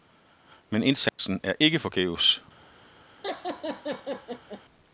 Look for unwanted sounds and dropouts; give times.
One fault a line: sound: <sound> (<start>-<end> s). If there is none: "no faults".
sound: dropout (1.1-1.2 s)
sound: laugh (3.2-4.6 s)